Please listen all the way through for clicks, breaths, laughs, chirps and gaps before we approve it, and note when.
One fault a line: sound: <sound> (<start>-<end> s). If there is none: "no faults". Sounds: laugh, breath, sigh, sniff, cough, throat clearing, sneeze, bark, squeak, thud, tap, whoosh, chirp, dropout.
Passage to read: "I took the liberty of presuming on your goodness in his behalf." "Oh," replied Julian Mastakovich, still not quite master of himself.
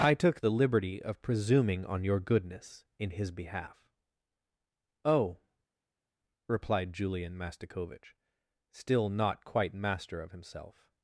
no faults